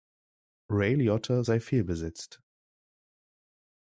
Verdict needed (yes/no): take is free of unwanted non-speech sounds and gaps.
yes